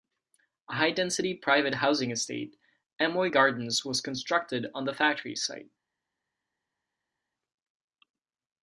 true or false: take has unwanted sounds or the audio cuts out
false